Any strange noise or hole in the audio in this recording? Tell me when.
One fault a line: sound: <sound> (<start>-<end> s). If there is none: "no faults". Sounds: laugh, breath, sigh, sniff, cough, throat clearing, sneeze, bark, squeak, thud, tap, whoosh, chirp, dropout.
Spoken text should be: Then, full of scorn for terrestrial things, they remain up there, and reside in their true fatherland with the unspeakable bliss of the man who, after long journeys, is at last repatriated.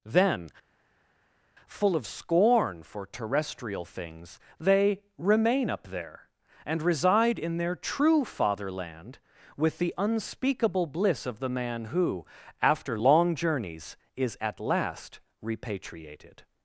no faults